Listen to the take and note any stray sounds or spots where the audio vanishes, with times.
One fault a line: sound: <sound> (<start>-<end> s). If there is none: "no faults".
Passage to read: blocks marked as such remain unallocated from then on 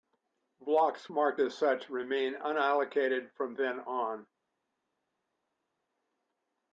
no faults